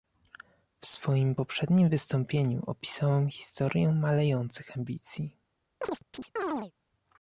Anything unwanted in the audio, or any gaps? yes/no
yes